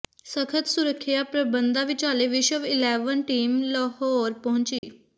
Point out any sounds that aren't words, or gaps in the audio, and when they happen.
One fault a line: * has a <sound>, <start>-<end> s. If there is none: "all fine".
* has a dropout, 4.8-4.8 s